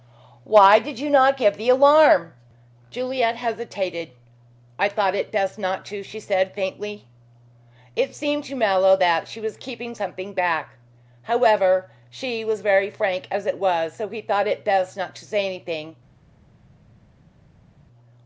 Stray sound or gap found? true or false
false